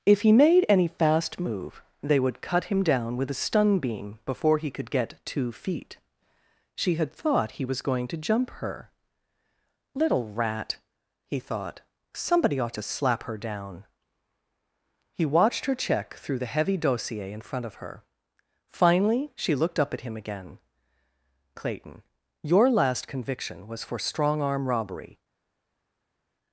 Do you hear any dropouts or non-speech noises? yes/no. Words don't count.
no